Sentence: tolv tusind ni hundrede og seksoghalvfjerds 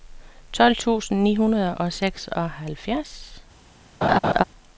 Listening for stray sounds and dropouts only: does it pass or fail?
fail